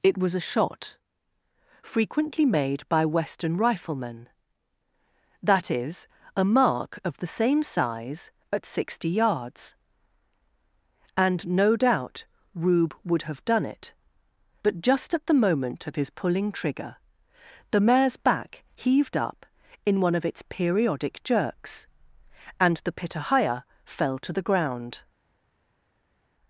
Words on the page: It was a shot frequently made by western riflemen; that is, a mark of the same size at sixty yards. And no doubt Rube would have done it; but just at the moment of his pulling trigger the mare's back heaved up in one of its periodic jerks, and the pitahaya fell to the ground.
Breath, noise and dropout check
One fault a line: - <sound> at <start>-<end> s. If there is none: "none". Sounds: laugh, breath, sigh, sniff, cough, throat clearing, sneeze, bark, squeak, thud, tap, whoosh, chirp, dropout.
none